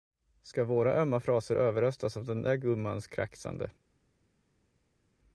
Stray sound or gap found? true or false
false